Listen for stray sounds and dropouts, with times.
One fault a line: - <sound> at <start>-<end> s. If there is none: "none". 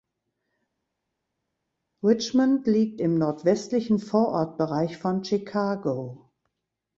none